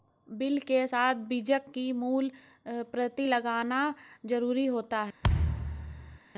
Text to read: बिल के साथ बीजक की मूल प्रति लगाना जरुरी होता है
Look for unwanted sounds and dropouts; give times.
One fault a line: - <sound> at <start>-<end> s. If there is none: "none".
- thud at 5.2-6.2 s